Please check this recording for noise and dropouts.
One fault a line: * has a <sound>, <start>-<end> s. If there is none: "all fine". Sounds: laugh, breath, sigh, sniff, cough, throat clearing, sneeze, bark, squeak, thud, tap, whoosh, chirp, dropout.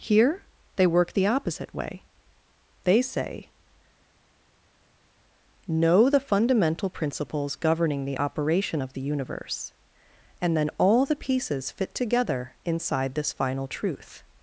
all fine